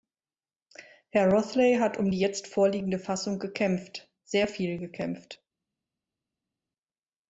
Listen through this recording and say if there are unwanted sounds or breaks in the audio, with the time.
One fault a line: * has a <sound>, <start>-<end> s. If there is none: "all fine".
all fine